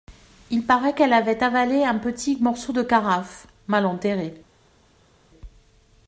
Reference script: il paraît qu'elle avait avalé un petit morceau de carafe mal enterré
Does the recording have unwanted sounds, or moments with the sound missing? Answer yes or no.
no